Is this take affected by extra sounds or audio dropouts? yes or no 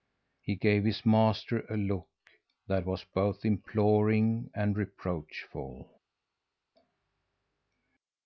no